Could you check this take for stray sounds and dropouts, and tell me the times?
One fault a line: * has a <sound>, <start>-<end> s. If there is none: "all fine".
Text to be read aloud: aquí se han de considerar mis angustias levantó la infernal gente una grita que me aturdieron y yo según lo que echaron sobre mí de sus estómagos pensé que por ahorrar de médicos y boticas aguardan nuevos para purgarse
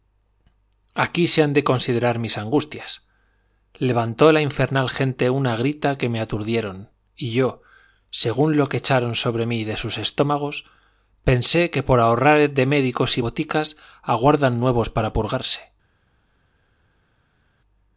all fine